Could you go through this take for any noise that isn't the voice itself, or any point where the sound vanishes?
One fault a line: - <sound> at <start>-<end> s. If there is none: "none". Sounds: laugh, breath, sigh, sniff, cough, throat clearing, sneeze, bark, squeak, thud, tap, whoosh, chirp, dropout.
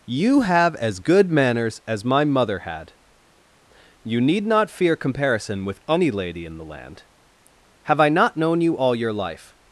none